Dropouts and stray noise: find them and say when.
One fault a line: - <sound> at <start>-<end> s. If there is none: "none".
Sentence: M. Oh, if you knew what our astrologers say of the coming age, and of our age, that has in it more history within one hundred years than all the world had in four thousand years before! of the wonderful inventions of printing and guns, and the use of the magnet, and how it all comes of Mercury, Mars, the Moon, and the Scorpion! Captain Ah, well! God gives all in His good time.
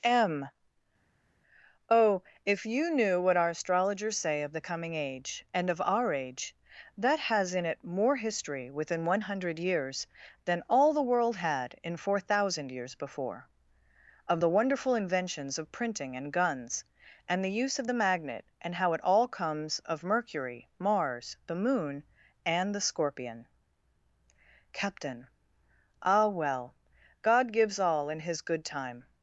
none